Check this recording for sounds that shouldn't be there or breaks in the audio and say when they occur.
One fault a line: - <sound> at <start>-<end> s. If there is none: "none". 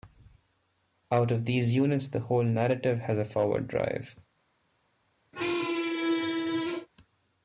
- squeak at 5.3-6.9 s